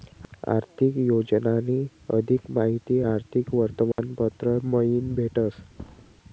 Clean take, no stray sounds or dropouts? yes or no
no